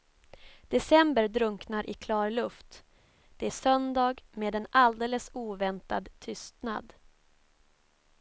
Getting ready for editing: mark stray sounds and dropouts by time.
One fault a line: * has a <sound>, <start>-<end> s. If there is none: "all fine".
all fine